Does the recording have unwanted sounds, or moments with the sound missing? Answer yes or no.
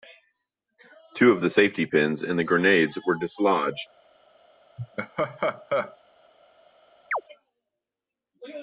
yes